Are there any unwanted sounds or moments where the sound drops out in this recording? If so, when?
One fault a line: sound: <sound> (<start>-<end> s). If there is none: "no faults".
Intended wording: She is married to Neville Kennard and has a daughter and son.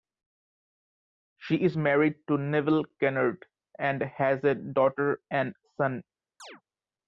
sound: chirp (6.4-6.6 s)